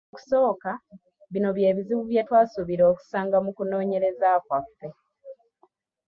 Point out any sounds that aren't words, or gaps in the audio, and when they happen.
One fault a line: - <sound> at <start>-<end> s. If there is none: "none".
none